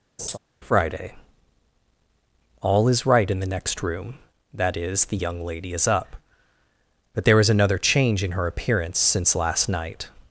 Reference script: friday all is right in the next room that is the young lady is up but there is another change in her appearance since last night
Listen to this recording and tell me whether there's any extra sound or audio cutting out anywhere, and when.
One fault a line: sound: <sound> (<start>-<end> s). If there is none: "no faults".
sound: laugh (0.2-0.4 s)